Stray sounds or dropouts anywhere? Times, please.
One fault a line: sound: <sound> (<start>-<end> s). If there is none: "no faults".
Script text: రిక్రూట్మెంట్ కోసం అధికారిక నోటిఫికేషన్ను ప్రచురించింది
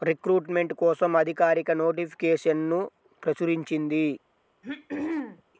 sound: throat clearing (4.6-5.4 s)